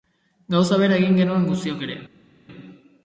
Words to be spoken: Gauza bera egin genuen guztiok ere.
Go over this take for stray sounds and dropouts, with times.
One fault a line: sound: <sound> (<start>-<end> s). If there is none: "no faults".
no faults